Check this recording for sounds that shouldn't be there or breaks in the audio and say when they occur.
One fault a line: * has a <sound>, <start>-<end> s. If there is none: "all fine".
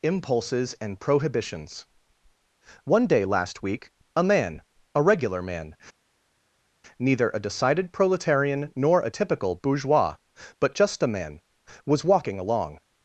all fine